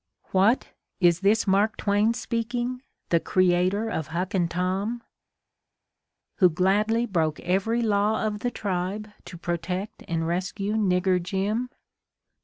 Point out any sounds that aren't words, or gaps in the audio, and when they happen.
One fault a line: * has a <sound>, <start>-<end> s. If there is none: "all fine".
all fine